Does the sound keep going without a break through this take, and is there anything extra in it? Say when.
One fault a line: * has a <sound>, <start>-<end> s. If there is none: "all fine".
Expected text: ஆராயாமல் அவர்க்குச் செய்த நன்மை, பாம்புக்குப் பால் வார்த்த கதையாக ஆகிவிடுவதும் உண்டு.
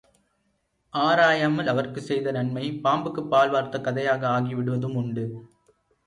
all fine